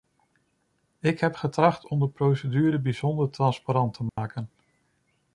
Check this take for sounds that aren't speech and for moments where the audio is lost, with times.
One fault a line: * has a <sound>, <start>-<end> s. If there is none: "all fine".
* has a dropout, 4.1-4.2 s